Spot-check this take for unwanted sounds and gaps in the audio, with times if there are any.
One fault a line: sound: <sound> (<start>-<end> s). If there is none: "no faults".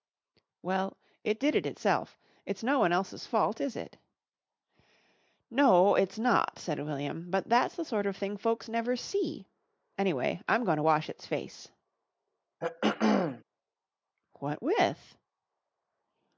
sound: throat clearing (12.6-13.4 s)